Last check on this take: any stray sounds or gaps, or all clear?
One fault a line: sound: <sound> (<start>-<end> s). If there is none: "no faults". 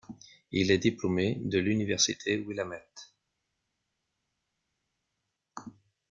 no faults